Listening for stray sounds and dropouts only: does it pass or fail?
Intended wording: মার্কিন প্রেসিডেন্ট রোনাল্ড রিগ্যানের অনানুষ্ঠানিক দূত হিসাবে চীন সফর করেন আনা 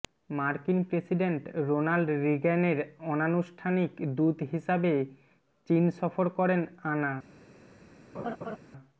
fail